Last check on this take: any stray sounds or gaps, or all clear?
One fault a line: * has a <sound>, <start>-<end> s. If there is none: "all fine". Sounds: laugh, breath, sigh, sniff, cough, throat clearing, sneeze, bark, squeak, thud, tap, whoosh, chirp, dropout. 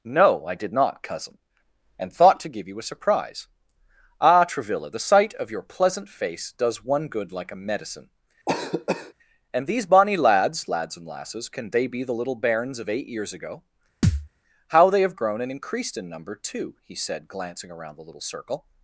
* has a cough, 8.5-9.1 s
* has a thud, 14.0-14.3 s